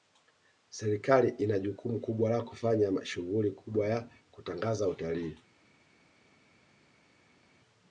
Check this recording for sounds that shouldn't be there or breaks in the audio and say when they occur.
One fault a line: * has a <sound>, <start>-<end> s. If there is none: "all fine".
all fine